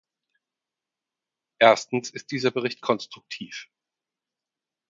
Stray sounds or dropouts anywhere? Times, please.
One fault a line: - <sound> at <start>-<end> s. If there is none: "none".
none